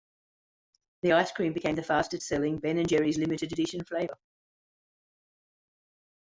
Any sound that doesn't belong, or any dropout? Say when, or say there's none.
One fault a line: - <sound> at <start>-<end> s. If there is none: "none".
none